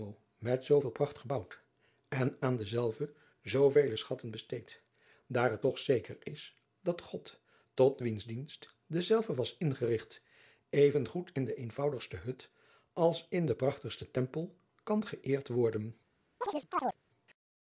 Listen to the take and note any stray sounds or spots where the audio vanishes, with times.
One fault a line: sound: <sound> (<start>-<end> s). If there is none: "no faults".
sound: chirp (16.4-17.0 s)